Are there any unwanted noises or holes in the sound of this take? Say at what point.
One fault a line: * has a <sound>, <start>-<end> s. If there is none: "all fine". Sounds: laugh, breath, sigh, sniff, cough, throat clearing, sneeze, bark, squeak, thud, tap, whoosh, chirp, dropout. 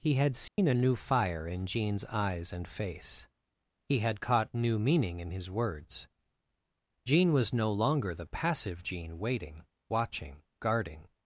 * has a dropout, 0.5-0.6 s